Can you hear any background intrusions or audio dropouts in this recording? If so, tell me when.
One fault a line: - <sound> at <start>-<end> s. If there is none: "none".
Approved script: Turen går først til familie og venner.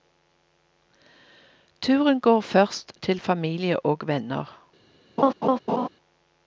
- laugh at 5.2-5.9 s